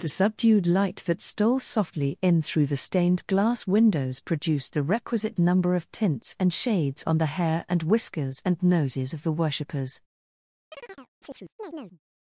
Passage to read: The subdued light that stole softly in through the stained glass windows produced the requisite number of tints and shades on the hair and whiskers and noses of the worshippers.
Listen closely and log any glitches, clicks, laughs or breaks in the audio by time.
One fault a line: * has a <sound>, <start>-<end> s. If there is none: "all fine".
* has a chirp, 10.7-12.0 s